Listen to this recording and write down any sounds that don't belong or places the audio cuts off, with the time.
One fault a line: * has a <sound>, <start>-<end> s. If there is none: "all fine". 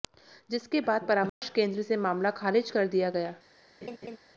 * has a dropout, 1.3-1.4 s
* has a laugh, 3.8-4.2 s